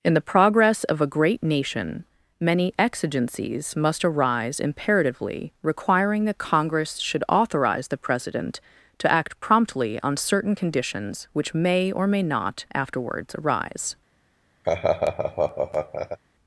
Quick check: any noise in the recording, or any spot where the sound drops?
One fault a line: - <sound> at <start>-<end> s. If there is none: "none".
- laugh at 14.6-16.2 s